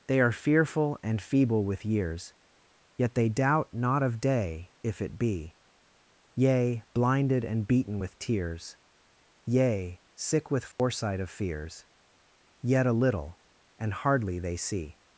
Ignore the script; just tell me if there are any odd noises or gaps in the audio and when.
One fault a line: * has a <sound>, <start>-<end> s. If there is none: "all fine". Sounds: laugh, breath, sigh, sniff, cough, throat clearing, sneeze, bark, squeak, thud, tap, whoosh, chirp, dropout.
* has a dropout, 10.7-10.8 s